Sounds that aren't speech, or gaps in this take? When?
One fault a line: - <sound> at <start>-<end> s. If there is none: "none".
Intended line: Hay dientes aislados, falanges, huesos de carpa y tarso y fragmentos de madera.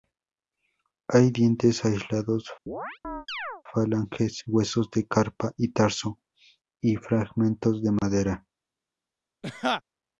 - chirp at 2.7-3.6 s
- laugh at 9.4-9.8 s